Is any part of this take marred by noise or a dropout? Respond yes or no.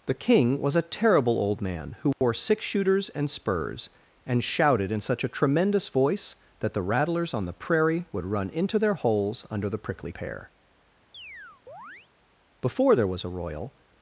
yes